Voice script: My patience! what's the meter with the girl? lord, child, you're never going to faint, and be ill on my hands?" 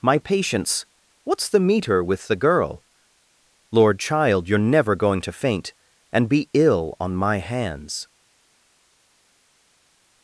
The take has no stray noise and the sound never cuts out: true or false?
true